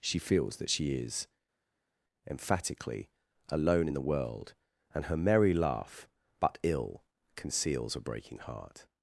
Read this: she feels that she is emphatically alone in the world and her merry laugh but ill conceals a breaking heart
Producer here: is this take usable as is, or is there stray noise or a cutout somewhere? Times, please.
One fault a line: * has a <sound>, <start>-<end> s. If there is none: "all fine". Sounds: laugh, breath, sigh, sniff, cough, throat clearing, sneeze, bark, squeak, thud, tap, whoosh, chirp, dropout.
all fine